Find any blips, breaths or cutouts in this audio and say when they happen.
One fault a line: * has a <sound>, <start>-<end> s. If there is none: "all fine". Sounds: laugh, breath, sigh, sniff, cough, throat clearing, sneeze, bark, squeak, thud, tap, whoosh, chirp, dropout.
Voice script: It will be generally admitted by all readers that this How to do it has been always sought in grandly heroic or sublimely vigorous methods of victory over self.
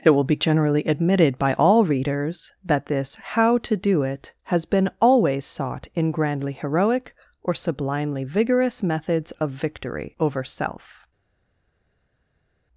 all fine